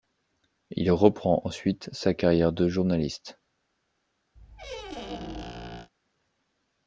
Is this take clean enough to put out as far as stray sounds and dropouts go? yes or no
no